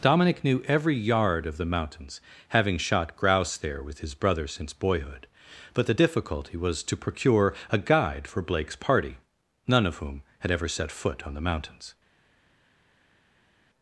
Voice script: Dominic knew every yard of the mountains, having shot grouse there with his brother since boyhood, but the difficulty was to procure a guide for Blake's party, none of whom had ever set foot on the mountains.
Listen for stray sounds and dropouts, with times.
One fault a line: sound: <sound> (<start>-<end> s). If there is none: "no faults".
no faults